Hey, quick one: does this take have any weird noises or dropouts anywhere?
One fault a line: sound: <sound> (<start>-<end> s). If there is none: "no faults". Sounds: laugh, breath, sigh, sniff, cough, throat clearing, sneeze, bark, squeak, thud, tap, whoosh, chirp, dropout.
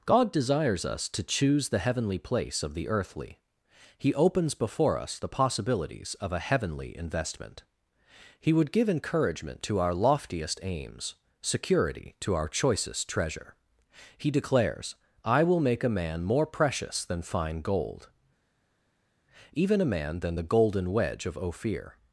no faults